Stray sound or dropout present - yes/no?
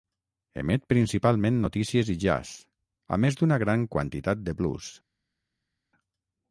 no